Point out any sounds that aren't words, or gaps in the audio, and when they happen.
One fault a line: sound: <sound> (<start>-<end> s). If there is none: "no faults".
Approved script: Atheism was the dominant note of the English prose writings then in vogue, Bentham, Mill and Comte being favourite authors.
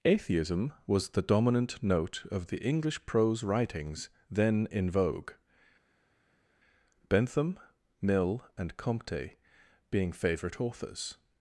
no faults